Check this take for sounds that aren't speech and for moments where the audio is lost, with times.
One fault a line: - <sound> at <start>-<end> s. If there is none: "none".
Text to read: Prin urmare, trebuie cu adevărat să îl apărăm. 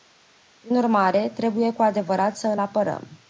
none